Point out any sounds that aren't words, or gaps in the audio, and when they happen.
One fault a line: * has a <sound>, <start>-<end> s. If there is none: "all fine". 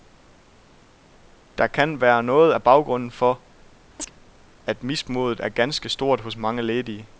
* has a chirp, 4.0-4.1 s